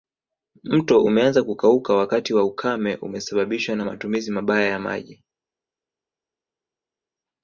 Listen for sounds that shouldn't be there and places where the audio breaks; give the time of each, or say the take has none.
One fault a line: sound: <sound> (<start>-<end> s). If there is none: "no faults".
no faults